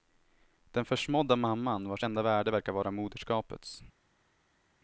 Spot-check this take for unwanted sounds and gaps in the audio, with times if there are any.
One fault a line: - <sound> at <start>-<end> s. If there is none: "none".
none